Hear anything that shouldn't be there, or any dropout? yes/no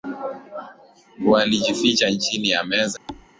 yes